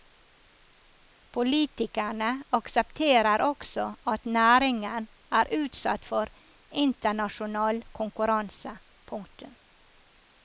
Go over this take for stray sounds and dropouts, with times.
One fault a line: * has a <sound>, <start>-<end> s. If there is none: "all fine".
all fine